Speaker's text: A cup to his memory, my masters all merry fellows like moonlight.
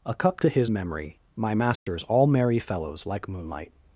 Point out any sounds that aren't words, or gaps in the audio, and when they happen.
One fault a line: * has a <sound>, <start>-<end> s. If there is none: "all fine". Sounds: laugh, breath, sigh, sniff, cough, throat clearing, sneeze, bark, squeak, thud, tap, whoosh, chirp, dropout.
* has a dropout, 1.8-1.9 s